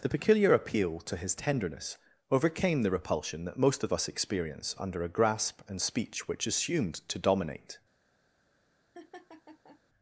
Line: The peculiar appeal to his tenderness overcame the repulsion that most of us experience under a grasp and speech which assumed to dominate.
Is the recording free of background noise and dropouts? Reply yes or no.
no